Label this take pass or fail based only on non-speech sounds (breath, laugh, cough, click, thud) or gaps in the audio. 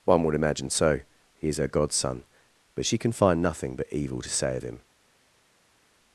pass